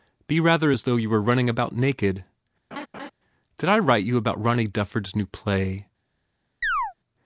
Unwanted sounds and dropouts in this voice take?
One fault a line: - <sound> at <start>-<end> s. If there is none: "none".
- laugh at 2.7-3.1 s
- chirp at 6.6-6.9 s